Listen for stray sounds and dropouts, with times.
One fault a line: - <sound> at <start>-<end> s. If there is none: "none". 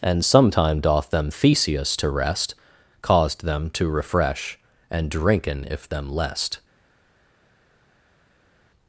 none